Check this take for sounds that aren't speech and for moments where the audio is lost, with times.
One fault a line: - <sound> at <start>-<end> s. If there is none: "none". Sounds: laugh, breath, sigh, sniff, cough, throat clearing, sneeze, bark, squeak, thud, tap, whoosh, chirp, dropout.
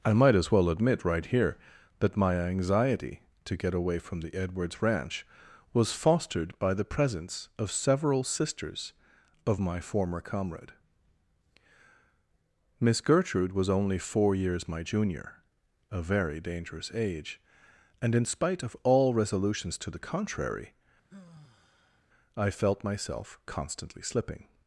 - sigh at 21.1-22.1 s